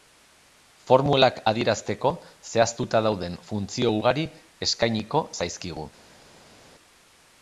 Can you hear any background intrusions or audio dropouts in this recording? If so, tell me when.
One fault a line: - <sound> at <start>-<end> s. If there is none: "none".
none